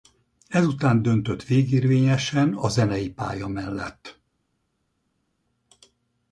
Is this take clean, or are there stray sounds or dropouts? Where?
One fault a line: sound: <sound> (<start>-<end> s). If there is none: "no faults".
no faults